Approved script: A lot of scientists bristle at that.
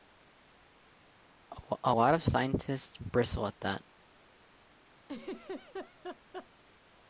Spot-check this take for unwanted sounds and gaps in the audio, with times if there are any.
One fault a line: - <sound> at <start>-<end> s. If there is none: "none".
- laugh at 5.0-6.5 s